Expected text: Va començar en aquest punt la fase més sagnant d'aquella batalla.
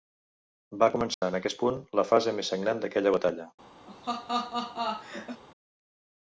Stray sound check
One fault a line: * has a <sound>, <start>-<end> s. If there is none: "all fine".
* has a dropout, 1.1-1.2 s
* has a laugh, 3.9-5.4 s